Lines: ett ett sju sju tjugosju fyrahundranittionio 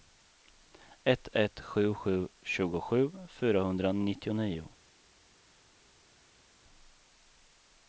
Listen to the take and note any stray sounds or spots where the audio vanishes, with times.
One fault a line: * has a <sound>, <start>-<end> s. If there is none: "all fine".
all fine